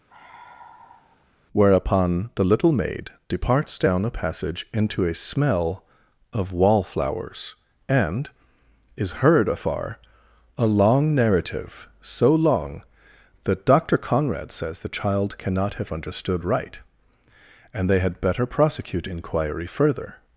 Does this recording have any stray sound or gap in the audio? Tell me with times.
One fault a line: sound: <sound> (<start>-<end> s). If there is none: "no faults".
sound: sigh (0.1-1.3 s)